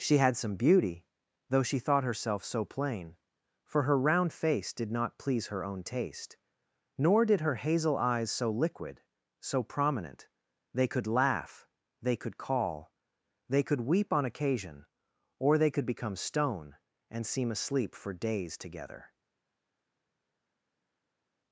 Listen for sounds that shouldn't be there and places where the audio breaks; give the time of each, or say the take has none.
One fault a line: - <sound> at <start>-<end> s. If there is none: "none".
none